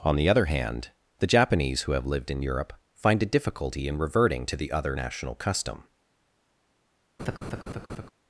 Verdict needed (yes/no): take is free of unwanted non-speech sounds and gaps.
no